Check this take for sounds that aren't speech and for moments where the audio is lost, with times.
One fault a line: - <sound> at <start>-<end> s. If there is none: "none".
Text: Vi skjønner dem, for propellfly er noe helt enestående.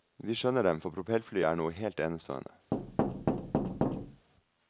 - thud at 2.7-4.3 s